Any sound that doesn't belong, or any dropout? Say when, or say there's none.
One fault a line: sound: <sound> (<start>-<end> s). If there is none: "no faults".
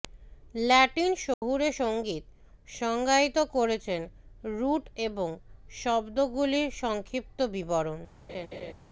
sound: dropout (1.3-1.4 s)
sound: laugh (8.3-8.7 s)